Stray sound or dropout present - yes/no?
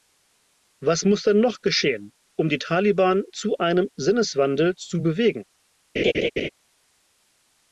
yes